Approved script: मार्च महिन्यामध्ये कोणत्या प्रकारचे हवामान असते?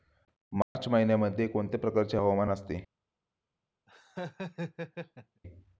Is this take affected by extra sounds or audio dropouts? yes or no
yes